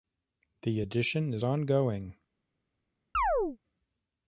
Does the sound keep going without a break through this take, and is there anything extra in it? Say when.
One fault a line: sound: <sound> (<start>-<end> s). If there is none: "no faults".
sound: chirp (3.1-3.6 s)